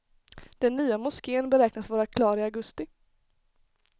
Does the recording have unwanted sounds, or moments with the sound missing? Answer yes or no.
no